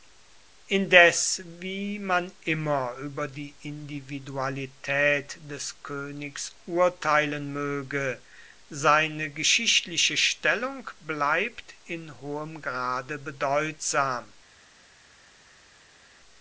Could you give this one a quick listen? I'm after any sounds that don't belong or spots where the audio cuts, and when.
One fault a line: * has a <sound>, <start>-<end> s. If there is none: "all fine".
all fine